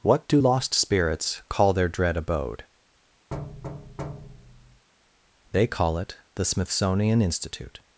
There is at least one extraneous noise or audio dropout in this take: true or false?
true